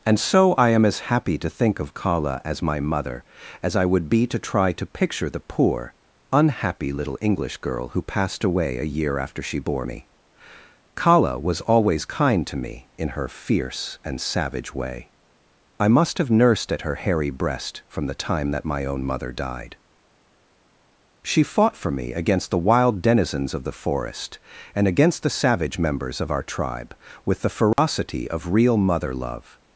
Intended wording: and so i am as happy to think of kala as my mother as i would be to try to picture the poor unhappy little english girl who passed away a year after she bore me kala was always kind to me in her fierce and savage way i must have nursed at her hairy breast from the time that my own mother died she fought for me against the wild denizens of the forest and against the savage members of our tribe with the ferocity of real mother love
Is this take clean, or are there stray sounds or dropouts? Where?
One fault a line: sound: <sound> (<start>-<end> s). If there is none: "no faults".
sound: dropout (27.7-27.8 s)